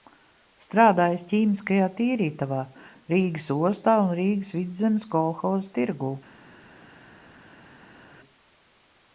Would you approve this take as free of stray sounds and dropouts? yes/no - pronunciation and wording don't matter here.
yes